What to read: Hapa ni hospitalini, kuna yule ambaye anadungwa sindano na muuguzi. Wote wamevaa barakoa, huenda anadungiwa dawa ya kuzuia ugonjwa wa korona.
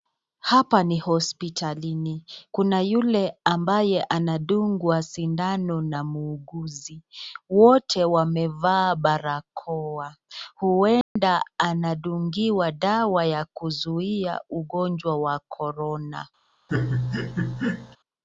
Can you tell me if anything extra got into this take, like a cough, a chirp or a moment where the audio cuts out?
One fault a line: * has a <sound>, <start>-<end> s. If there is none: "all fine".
* has a dropout, 11.0-11.2 s
* has a laugh, 16.7-18.0 s